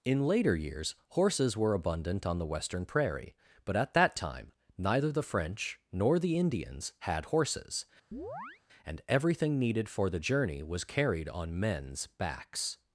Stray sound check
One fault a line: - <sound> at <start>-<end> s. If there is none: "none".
- chirp at 8.1-8.6 s